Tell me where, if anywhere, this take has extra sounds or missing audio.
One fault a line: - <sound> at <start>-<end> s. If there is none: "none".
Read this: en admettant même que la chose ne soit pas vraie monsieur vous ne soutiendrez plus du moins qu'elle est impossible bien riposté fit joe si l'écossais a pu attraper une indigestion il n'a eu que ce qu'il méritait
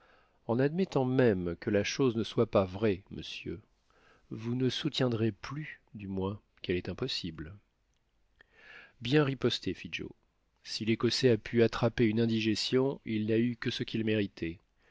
none